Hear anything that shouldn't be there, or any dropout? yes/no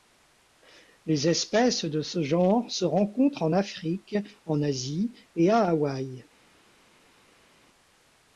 no